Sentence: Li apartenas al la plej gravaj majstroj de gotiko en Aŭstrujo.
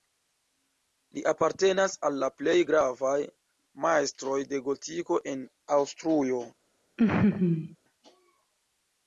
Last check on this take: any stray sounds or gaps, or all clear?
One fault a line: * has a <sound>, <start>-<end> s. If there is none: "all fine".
* has a laugh, 7.0-7.8 s